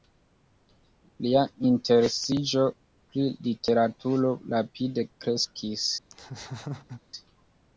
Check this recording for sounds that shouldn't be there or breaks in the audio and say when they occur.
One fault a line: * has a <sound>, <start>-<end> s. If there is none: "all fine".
* has a laugh, 6.1-7.0 s